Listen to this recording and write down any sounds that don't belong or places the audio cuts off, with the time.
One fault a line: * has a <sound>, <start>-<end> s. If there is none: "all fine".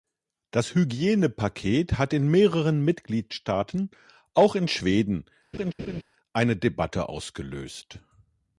* has a laugh, 5.5-6.0 s